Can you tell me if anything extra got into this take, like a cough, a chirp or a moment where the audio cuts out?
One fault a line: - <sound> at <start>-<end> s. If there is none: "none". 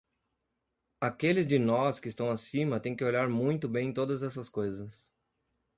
none